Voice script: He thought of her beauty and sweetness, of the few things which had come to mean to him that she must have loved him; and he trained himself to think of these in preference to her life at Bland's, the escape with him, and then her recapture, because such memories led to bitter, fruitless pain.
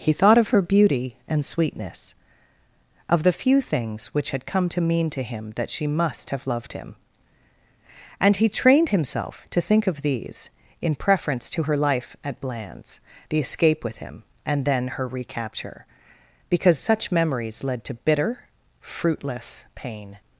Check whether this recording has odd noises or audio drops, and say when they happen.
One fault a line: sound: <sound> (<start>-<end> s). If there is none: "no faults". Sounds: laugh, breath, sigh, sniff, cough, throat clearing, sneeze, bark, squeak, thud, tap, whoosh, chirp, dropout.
no faults